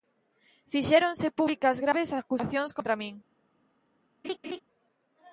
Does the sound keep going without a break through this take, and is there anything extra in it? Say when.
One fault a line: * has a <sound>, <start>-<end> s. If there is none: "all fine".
* has a laugh, 4.2-4.6 s